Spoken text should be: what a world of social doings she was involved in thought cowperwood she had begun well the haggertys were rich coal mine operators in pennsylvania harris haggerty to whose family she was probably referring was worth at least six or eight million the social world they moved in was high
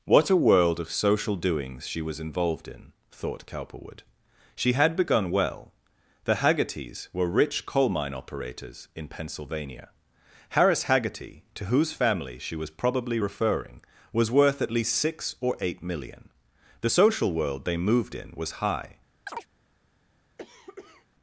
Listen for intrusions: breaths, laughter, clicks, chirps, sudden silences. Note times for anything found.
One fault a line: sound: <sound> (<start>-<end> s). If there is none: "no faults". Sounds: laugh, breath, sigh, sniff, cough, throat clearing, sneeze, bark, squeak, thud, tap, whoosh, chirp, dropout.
sound: chirp (19.3-19.5 s)
sound: cough (20.4-21.1 s)